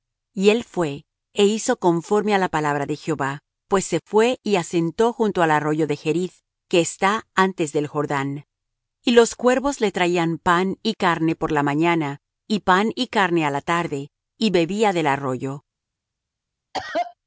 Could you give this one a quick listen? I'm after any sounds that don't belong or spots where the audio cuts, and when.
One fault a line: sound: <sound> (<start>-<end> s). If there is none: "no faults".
sound: cough (16.7-17.1 s)